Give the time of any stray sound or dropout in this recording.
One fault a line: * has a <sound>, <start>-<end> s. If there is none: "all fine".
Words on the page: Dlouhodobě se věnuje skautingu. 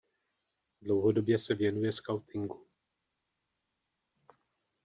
all fine